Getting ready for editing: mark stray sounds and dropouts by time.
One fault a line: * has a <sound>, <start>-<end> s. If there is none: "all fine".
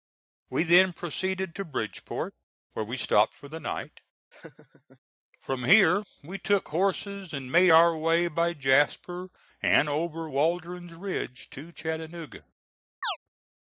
* has a laugh, 4.3-5.0 s
* has a chirp, 13.0-13.2 s